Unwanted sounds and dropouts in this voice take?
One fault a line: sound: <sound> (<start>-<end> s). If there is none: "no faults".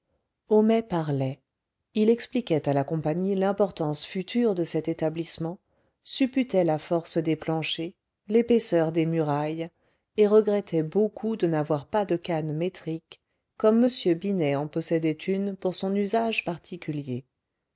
no faults